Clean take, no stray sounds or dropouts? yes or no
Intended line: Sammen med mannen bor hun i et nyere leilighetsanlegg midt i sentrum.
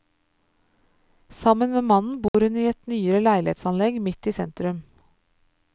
no